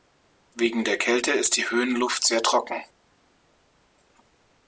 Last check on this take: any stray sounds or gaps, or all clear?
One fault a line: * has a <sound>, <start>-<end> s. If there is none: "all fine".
all fine